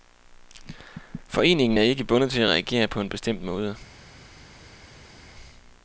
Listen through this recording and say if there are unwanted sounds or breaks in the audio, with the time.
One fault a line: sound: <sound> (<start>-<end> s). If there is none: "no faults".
no faults